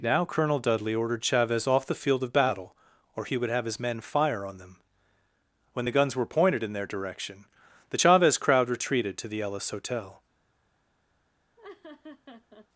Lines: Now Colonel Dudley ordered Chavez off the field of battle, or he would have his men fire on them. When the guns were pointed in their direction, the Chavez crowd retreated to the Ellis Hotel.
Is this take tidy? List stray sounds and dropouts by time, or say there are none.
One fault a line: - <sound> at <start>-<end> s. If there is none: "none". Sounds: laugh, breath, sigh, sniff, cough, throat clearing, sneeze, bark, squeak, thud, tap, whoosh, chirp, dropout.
- laugh at 11.6-12.7 s